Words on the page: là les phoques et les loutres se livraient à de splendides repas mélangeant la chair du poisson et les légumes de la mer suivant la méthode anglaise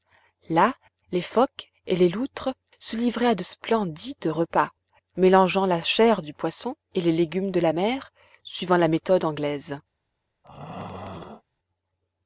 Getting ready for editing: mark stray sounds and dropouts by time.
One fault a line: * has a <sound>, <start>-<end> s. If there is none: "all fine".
* has a throat clearing, 10.4-11.4 s